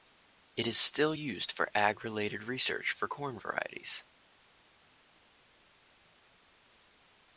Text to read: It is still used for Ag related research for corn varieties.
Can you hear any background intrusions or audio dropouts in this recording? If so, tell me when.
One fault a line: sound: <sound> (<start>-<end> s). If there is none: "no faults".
no faults